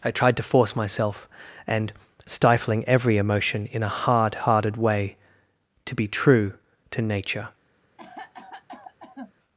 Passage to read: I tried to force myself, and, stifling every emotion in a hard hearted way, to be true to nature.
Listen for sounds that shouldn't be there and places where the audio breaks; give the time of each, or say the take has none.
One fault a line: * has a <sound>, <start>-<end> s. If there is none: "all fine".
* has a cough, 8.0-9.3 s